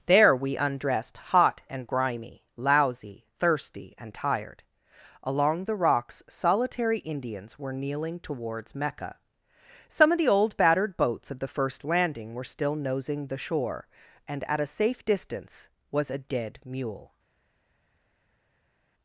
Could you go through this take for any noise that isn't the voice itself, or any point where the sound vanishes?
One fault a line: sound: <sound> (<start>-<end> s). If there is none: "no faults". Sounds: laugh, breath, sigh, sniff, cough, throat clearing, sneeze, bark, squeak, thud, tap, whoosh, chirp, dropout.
no faults